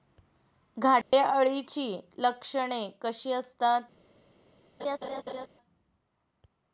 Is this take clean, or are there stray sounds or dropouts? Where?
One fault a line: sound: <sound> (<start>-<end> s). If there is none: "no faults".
sound: dropout (1.0-1.1 s)
sound: laugh (4.8-5.5 s)